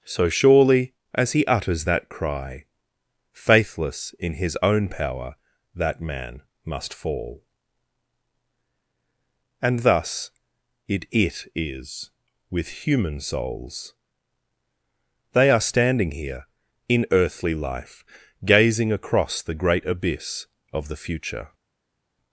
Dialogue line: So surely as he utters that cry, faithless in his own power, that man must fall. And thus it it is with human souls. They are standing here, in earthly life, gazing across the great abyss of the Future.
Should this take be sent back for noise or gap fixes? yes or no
no